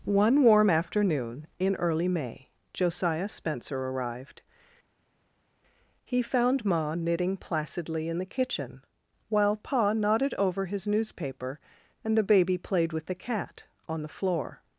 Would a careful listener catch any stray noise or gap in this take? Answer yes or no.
no